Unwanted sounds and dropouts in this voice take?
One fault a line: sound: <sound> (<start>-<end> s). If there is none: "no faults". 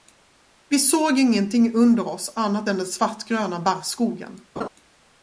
sound: laugh (4.6-4.7 s)